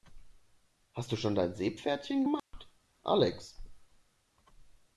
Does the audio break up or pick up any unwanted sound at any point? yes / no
yes